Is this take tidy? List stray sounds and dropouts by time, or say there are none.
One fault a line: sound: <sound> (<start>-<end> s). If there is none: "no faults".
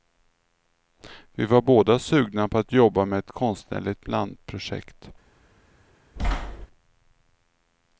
sound: thud (6.2-6.7 s)